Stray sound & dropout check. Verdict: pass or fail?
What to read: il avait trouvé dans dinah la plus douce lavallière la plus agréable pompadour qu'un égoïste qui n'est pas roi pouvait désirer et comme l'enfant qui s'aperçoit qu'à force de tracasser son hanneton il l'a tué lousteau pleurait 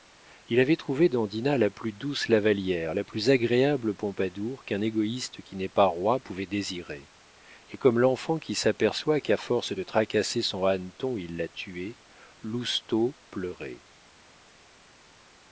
pass